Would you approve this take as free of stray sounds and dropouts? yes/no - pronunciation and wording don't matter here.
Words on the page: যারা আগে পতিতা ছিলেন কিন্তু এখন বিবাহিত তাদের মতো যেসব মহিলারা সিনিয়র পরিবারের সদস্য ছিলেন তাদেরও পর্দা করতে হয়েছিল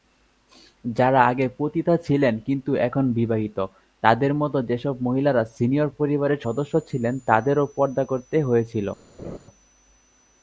no